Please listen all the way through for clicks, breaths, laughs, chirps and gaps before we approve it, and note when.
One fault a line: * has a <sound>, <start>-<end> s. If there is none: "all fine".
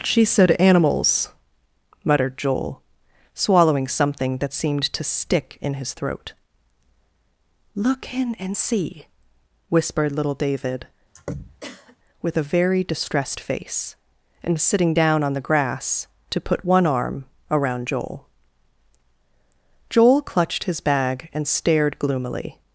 * has a throat clearing, 11.1-12.0 s